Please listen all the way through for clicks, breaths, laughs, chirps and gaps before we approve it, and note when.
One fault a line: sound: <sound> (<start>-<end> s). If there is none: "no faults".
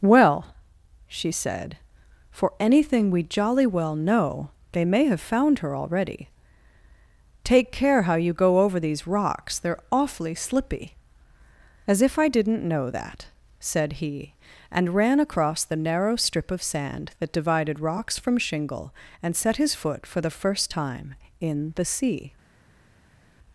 no faults